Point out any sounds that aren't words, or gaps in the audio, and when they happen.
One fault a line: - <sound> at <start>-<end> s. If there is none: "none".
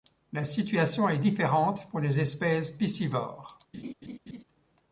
- laugh at 3.7-4.4 s